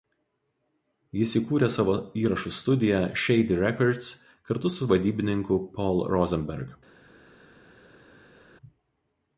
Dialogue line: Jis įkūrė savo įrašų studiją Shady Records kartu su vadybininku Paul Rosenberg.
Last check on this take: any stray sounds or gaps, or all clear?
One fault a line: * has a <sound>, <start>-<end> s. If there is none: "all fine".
all fine